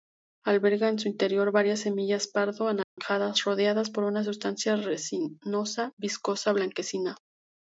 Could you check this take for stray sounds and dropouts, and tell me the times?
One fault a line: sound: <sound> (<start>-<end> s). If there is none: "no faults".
sound: dropout (2.8-3.0 s)